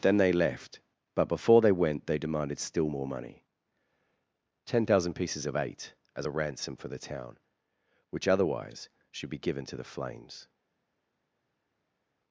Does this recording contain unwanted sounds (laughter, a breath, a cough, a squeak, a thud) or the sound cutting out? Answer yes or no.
no